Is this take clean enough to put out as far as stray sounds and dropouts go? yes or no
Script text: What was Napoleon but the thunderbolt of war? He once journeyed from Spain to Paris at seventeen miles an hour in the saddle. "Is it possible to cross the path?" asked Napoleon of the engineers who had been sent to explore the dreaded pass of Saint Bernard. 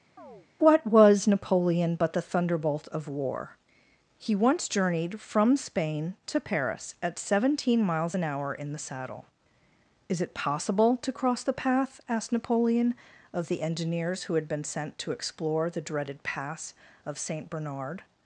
no